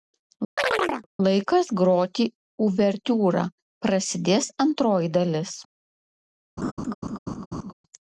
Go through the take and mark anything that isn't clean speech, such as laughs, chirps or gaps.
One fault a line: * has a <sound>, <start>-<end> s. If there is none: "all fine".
* has a chirp, 0.6-1.1 s
* has a laugh, 6.6-7.7 s